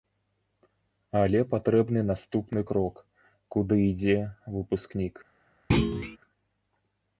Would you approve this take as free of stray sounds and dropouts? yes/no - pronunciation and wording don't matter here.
no